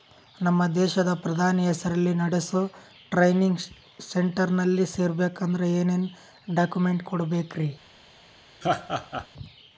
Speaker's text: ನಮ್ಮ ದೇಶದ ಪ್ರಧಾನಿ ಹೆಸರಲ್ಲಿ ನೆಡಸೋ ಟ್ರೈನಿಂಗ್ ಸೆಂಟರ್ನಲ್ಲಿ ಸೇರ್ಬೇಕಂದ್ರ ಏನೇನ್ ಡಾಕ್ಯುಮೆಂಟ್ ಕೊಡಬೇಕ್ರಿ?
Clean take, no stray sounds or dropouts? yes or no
no